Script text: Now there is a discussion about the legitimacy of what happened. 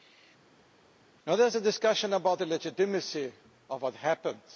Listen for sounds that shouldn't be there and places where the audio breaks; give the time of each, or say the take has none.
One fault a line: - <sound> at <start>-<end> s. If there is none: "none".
none